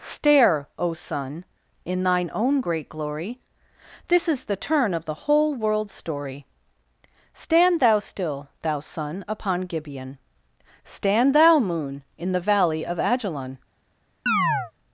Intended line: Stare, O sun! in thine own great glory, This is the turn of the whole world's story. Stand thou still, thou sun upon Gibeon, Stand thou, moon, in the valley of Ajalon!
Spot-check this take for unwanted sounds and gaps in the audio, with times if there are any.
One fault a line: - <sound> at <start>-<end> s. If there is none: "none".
- chirp at 14.3-14.7 s